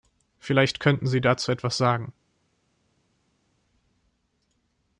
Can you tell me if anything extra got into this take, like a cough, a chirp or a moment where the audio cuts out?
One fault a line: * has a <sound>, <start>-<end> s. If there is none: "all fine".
all fine